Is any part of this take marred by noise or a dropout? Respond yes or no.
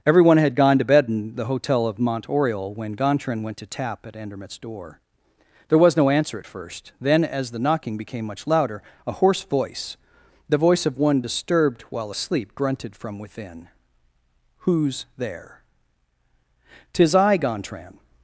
no